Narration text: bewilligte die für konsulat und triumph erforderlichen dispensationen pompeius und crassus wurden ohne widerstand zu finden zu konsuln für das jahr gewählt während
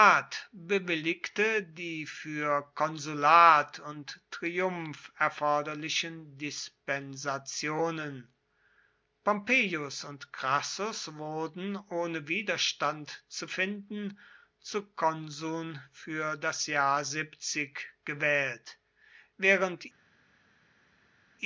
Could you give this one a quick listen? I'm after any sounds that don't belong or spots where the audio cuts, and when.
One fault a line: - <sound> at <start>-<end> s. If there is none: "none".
none